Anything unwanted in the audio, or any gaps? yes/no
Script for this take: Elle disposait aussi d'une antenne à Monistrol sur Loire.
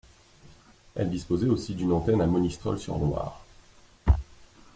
no